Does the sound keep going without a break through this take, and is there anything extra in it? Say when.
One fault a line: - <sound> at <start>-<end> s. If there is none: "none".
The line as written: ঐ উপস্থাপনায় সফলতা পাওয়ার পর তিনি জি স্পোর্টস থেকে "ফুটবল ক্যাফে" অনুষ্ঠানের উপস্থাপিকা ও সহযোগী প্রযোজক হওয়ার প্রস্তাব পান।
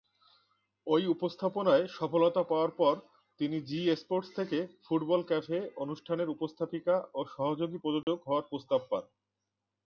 - dropout at 8.0-8.1 s